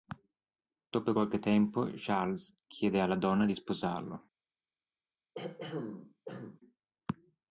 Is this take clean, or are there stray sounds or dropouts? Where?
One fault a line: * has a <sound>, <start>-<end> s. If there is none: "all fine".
* has a throat clearing, 5.4-6.6 s